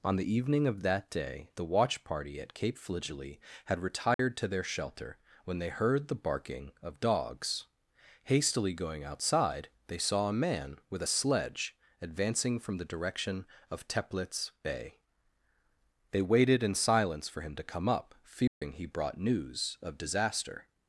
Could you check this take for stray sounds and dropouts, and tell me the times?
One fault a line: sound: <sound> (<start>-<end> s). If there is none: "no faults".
sound: dropout (4.1-4.2 s)
sound: dropout (18.5-18.6 s)